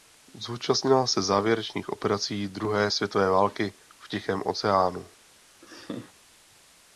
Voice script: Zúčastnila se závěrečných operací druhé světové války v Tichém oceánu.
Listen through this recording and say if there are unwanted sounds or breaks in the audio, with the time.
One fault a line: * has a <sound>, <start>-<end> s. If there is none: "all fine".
* has a laugh, 5.6-6.1 s